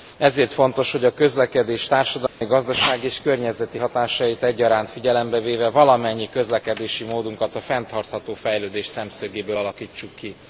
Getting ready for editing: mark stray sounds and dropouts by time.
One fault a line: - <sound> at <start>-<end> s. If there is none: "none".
- dropout at 2.3-2.4 s